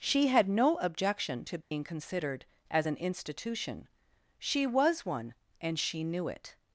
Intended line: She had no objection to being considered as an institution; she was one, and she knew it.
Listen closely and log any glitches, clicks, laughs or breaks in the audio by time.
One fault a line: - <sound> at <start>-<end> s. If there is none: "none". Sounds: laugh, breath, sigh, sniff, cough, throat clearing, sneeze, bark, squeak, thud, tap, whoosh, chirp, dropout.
- dropout at 1.6-1.7 s